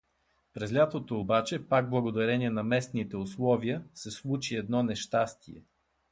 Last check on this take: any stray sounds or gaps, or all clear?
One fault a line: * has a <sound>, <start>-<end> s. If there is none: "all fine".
all fine